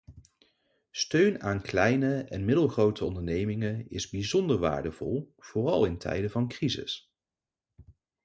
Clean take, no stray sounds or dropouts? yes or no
yes